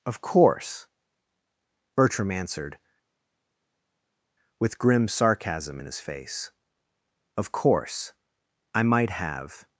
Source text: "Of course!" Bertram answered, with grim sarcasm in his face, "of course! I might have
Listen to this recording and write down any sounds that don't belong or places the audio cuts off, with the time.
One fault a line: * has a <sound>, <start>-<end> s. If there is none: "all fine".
all fine